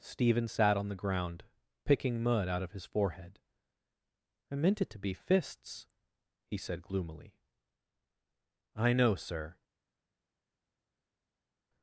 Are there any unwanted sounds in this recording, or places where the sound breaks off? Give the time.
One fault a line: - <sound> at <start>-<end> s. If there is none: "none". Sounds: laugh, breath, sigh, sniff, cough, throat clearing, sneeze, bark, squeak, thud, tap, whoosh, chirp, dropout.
none